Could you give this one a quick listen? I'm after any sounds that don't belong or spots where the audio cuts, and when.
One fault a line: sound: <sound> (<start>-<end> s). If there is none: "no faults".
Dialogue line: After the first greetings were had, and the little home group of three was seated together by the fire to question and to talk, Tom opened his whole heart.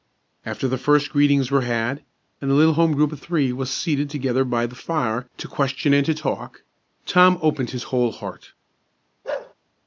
sound: bark (9.2-9.5 s)